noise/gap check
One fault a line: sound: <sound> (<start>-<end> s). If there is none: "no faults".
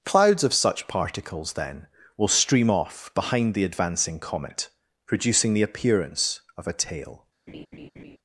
sound: laugh (7.5-8.2 s)